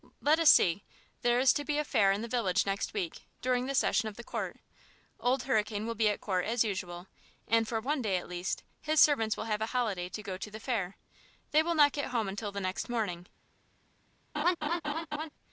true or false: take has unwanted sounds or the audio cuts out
true